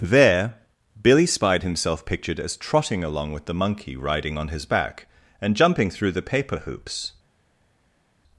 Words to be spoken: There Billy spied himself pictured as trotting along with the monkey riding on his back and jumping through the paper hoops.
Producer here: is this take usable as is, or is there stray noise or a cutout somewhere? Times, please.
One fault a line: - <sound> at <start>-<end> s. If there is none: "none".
none